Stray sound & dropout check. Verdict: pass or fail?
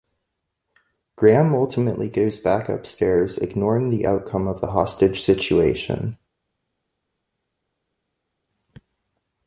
pass